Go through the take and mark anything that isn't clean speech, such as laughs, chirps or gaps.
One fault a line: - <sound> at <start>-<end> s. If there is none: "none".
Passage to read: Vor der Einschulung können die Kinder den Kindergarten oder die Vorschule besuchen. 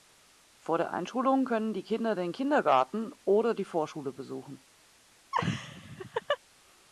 - laugh at 5.3-6.4 s